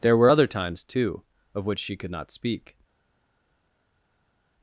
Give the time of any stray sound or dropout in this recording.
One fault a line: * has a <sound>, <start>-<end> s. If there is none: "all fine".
all fine